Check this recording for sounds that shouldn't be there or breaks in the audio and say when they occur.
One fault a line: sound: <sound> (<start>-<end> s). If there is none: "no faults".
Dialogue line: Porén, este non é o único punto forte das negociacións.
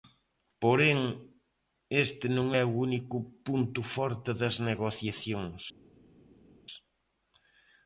no faults